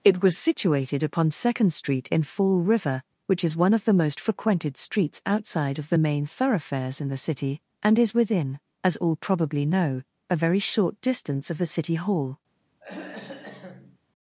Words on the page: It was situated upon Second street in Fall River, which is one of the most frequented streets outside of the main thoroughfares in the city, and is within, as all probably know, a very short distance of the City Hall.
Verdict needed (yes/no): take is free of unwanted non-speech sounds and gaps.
no